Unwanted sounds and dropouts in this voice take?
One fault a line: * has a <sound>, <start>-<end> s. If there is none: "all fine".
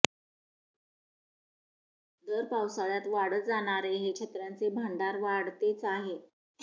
all fine